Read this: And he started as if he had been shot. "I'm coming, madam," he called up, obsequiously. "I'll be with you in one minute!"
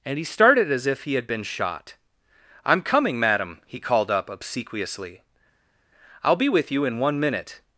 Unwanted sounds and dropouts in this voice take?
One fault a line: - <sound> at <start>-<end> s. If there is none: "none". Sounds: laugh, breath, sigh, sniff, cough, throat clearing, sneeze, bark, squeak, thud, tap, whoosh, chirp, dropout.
none